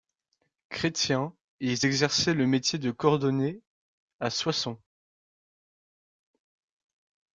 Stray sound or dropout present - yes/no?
no